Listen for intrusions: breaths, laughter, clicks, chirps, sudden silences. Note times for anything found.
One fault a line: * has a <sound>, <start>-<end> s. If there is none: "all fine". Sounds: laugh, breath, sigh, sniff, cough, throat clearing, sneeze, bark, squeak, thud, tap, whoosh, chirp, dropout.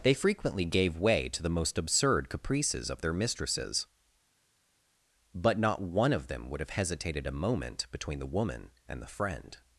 all fine